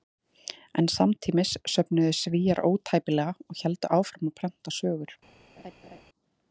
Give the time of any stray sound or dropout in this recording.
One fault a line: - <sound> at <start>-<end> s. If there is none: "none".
- laugh at 5.6-6.0 s